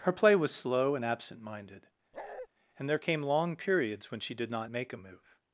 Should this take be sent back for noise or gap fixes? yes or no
yes